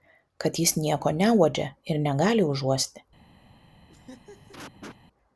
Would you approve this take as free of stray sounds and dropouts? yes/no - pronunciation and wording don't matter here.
no